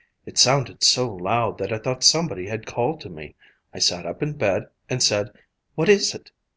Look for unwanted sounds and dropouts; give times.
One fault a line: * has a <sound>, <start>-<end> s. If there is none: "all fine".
all fine